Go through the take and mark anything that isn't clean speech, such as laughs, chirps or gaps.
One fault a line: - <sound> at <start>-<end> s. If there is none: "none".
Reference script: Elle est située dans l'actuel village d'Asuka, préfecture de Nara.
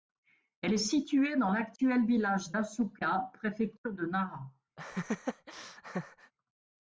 - laugh at 4.8-6.3 s